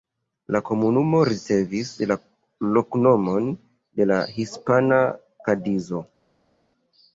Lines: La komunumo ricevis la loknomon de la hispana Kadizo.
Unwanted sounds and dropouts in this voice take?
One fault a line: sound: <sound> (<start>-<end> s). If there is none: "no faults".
no faults